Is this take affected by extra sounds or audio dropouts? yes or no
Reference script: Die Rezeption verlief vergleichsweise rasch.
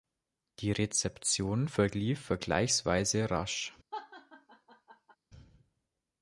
yes